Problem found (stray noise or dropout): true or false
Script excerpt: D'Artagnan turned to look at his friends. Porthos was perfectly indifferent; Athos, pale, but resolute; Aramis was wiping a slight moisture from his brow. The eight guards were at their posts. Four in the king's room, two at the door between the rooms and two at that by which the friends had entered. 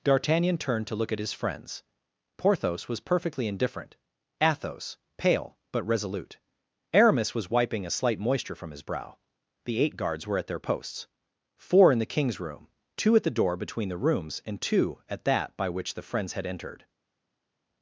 false